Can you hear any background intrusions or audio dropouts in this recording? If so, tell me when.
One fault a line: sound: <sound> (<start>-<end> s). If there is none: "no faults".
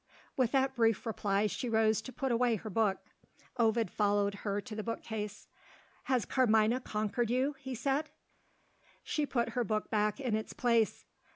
no faults